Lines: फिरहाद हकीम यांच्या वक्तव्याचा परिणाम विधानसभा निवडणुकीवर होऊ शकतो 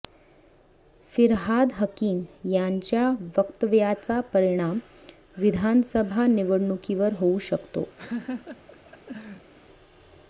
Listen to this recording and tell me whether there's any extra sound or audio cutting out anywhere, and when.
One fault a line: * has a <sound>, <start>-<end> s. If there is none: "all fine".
* has a laugh, 8.0-9.5 s